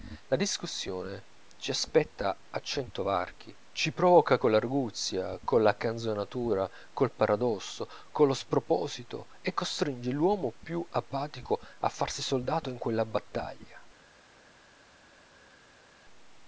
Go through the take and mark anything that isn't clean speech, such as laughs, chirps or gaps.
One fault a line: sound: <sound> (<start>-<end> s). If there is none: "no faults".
no faults